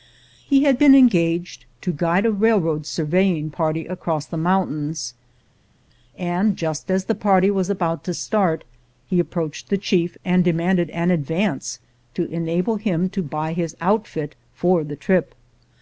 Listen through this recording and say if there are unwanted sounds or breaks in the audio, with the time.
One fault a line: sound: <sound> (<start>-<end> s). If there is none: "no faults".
no faults